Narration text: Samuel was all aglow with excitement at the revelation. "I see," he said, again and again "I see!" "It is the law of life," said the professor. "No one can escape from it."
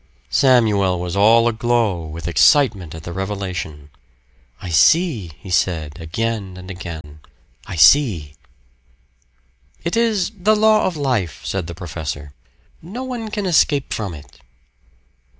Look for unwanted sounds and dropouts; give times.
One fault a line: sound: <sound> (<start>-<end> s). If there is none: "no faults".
sound: dropout (7.0-7.0 s)